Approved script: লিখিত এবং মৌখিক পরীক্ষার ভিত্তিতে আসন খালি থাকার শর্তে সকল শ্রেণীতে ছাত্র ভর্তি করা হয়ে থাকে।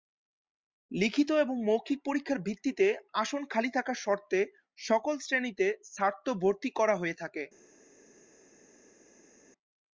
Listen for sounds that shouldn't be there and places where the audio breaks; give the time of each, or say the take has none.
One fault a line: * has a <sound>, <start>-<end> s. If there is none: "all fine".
all fine